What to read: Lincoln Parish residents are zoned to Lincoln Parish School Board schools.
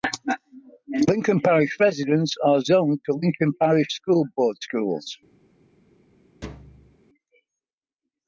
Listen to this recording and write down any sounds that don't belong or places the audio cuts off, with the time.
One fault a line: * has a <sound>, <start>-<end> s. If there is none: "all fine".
* has a thud, 6.4-7.0 s